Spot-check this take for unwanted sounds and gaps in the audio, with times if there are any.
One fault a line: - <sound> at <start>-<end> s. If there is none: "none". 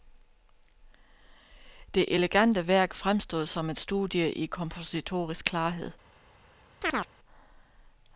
- chirp at 6.8-7.1 s